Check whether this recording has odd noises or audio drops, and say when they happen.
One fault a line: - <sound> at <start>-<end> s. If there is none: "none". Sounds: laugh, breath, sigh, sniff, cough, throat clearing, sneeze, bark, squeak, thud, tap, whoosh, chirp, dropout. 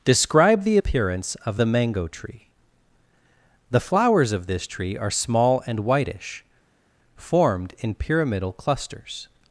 none